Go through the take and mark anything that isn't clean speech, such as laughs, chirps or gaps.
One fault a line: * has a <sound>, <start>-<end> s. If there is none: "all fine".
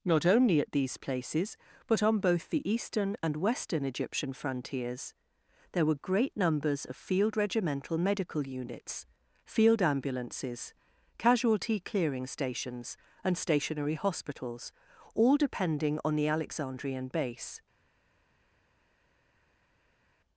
all fine